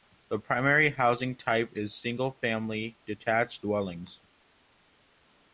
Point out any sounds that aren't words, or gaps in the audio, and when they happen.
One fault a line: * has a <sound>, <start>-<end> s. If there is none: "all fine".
all fine